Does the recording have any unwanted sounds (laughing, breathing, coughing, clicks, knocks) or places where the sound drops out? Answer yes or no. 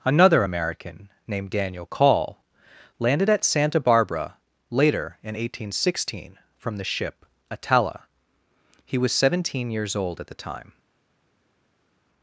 no